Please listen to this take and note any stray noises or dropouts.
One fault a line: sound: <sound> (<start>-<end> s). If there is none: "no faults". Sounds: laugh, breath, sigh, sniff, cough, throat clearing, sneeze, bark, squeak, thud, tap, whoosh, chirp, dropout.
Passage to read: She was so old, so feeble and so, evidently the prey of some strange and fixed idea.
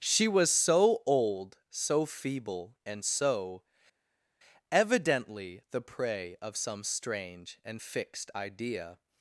no faults